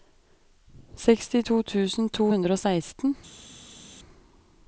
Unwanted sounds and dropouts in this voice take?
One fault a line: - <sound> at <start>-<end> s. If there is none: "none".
none